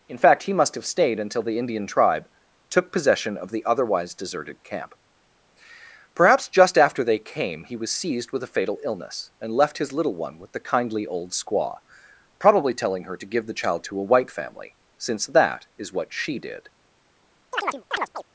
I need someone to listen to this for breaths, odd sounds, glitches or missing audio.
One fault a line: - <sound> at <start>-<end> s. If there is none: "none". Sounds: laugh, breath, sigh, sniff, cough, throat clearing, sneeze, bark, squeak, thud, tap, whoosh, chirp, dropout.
- chirp at 17.5-18.2 s